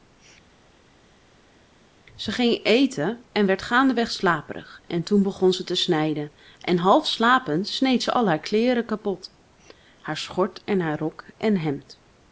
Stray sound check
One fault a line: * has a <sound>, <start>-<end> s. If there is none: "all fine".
all fine